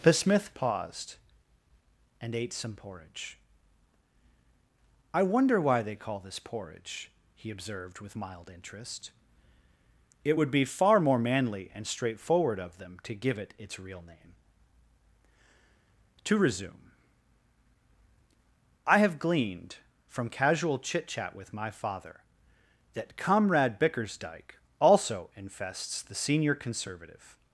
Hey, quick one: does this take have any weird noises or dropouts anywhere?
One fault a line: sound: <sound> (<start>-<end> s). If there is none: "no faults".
no faults